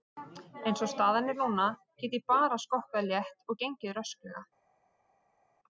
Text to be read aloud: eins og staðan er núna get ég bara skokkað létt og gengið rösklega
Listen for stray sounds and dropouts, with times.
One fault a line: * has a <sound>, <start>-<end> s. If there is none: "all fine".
all fine